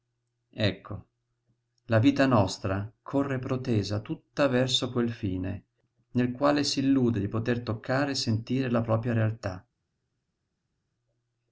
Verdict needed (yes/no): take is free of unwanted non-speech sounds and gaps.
yes